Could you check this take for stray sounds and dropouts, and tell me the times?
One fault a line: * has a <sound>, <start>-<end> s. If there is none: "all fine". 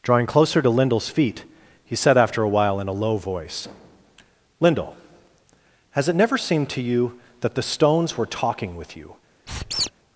* has a squeak, 9.5-9.9 s